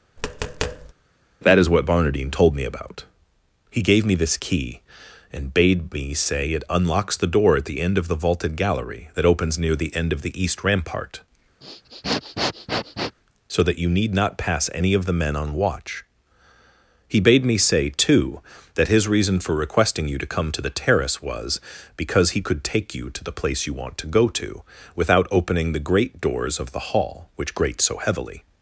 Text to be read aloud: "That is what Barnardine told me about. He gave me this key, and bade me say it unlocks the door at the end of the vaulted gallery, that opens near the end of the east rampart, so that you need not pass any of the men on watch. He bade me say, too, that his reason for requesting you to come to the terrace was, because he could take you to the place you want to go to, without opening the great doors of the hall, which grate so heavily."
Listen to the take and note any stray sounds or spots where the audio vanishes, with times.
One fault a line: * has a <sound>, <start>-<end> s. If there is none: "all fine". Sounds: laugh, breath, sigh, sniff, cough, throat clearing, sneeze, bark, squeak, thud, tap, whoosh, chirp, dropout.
* has a tap, 0.2-0.9 s
* has a sniff, 11.6-13.2 s